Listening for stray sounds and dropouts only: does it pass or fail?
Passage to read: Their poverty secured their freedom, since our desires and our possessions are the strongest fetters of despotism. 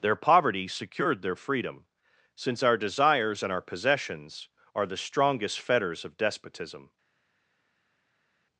pass